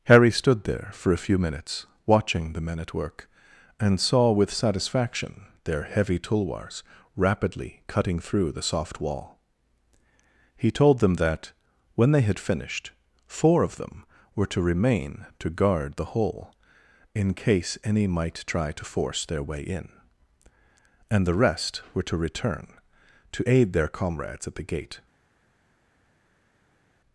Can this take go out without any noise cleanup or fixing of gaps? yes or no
yes